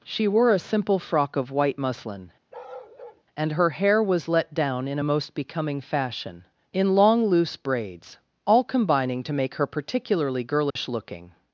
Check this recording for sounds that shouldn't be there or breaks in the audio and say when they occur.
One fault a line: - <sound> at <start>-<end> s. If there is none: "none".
- bark at 2.5-3.2 s
- dropout at 10.7-10.8 s